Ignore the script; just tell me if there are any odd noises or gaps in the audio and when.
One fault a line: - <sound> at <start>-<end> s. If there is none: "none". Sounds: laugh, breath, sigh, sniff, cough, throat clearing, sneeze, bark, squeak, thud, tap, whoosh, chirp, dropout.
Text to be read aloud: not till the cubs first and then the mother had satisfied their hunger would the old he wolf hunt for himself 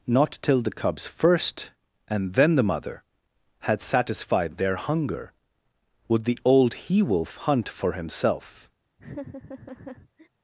- laugh at 9.0-10.3 s